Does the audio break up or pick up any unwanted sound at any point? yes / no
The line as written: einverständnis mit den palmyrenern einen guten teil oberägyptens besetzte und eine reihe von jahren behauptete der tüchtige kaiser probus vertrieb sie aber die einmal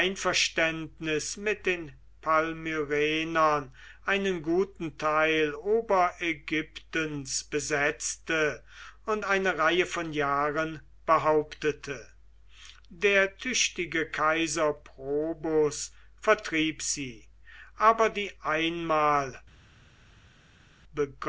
no